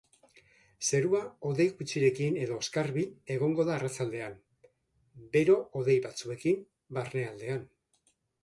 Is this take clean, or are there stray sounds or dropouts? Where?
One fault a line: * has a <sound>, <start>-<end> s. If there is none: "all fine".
all fine